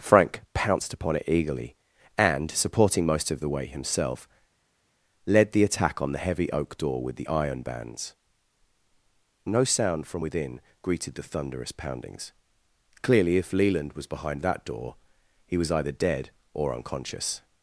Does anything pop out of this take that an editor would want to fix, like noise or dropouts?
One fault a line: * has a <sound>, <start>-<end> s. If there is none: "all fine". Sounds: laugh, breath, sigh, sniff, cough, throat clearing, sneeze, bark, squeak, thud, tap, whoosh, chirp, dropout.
all fine